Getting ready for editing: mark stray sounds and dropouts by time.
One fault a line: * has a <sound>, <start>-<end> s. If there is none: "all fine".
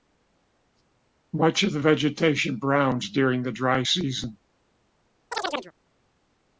* has a chirp, 5.3-5.7 s